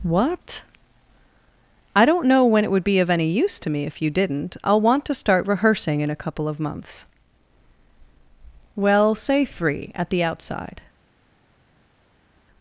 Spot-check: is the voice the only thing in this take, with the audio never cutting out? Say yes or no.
yes